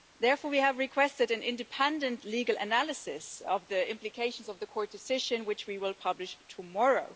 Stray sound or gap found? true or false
false